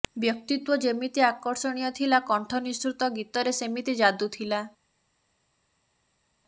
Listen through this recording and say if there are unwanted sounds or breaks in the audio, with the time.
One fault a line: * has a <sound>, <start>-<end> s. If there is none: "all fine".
all fine